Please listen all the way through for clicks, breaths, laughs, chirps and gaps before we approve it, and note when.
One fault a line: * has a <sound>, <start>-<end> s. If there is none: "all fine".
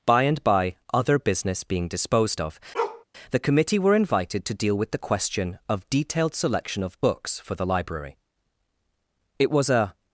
* has a bark, 2.7-3.0 s